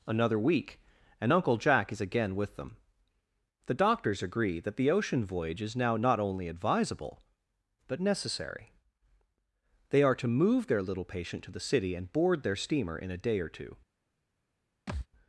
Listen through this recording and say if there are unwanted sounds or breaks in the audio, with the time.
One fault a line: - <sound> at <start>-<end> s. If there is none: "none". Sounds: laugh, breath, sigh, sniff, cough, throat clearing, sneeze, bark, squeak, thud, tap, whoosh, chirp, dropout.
- thud at 14.9-15.1 s